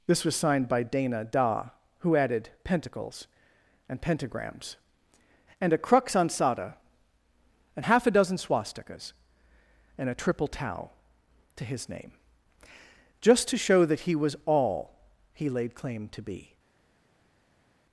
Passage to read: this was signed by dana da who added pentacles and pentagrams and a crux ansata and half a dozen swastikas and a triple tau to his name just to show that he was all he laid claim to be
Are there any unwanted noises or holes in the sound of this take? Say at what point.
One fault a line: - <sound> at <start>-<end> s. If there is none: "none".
none